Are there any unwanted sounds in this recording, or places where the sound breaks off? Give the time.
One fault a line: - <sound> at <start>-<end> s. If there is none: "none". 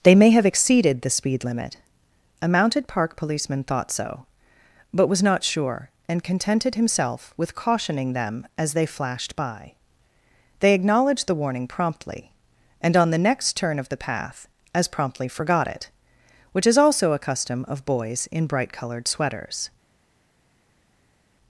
none